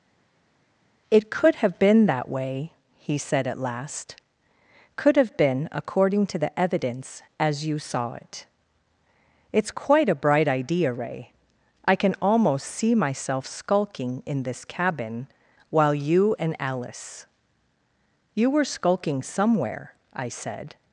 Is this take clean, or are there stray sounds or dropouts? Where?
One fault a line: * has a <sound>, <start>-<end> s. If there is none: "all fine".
all fine